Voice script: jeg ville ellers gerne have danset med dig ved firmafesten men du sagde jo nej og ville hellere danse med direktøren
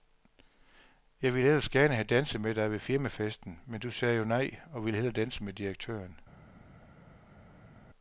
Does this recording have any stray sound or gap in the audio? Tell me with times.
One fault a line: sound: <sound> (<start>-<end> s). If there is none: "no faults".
no faults